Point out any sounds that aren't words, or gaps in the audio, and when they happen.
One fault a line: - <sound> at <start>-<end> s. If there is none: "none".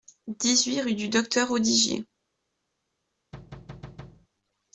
- thud at 3.3-4.3 s